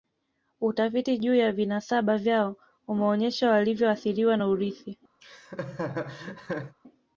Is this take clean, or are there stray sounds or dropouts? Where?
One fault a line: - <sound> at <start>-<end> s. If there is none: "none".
- laugh at 5.2-6.8 s